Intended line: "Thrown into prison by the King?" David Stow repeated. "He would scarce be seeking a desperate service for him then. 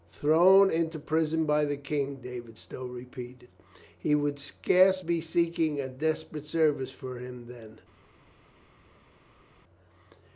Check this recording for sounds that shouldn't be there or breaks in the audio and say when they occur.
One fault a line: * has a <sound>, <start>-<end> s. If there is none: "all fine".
all fine